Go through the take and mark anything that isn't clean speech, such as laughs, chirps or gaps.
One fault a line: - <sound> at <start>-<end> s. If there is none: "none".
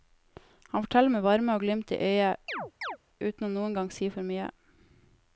- chirp at 2.5-3.0 s